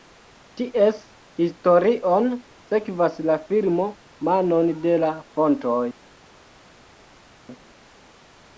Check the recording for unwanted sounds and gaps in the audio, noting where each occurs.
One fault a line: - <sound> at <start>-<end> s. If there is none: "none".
none